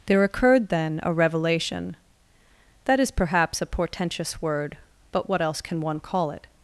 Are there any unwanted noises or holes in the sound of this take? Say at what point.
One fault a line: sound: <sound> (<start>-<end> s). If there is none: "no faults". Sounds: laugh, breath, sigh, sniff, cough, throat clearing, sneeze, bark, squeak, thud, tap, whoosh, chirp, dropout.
no faults